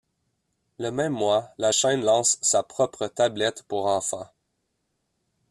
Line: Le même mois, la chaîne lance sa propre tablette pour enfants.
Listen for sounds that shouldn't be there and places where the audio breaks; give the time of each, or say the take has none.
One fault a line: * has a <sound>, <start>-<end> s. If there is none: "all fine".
all fine